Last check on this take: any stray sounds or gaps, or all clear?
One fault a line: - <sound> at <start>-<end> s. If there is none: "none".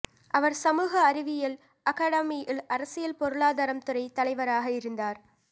none